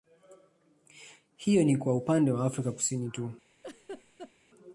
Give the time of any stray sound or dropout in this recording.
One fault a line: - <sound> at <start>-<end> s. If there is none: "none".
- laugh at 3.6-4.3 s